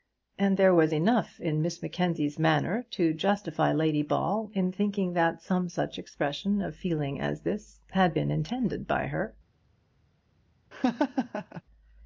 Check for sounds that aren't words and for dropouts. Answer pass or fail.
fail